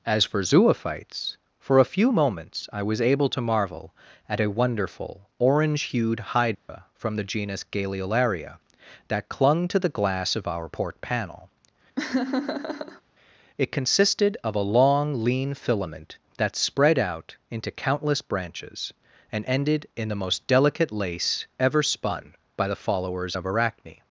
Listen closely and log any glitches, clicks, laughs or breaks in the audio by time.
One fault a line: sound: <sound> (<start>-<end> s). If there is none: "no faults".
sound: dropout (6.5-6.7 s)
sound: laugh (12.0-13.0 s)